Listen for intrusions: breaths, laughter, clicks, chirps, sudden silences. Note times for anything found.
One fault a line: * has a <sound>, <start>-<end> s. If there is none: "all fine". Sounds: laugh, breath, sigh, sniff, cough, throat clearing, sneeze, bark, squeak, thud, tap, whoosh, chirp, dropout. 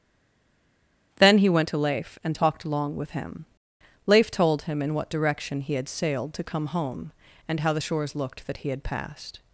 all fine